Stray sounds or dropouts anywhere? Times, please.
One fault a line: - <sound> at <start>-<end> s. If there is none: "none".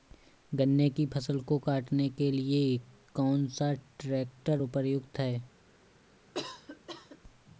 - cough at 6.3-7.2 s